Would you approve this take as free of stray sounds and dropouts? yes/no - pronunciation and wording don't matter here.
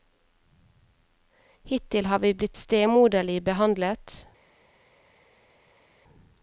yes